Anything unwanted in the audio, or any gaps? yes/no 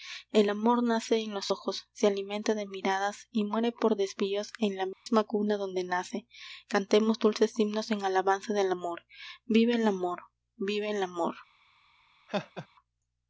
yes